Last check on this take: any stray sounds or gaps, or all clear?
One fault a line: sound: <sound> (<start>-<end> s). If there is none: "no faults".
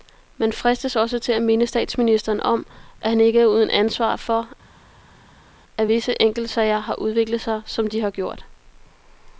no faults